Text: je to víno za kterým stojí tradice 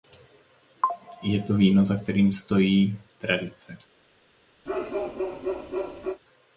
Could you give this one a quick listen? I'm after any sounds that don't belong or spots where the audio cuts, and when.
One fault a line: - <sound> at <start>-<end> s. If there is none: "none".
- bark at 4.7-6.2 s